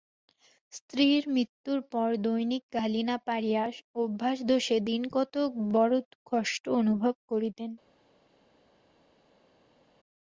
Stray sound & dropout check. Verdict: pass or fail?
pass